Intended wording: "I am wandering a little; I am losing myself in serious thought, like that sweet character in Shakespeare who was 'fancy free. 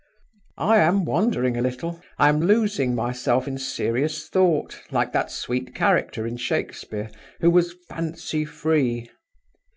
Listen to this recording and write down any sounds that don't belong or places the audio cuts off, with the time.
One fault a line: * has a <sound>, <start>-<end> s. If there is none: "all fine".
all fine